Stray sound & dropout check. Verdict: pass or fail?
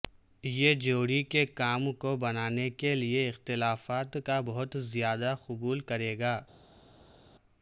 pass